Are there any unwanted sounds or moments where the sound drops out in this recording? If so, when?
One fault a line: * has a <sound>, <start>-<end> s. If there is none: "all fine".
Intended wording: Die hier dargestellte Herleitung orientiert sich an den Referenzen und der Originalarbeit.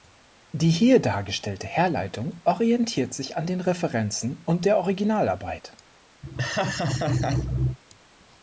* has a laugh, 6.2-7.8 s